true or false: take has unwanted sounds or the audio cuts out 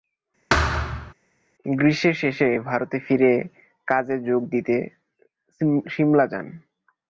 true